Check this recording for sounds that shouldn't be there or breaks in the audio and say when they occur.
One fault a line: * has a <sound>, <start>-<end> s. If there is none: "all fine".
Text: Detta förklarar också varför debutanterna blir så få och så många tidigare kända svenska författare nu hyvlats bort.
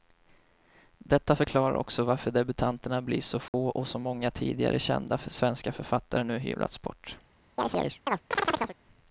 * has a dropout, 3.5-3.5 s
* has a chirp, 7.6-8.8 s